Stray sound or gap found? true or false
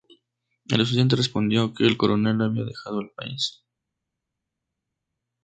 false